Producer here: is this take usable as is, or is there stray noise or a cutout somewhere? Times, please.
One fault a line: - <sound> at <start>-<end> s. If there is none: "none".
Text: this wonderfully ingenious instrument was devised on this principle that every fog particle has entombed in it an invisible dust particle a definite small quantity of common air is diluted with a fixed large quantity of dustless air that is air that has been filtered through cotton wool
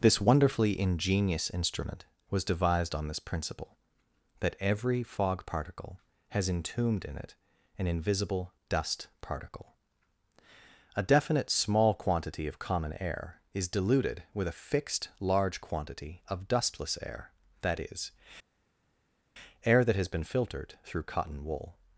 none